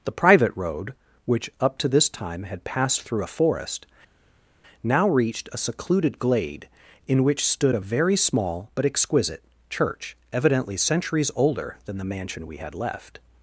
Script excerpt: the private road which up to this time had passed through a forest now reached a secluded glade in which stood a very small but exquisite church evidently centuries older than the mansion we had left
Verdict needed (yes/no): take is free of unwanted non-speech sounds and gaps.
yes